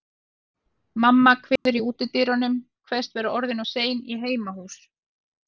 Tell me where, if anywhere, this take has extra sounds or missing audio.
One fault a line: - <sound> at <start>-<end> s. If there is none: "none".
- dropout at 1.6-1.7 s